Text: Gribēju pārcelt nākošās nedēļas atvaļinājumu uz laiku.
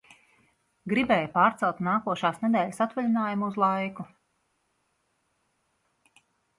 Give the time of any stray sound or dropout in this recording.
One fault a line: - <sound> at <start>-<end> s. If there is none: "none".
none